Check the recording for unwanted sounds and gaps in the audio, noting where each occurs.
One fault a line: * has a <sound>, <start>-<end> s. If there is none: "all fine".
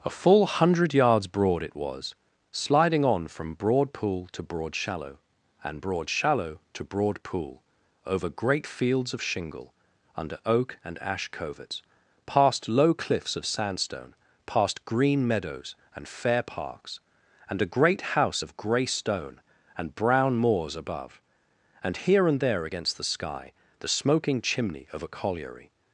all fine